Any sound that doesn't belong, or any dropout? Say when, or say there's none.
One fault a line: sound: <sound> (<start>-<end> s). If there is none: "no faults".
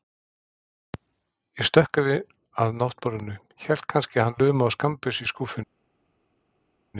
no faults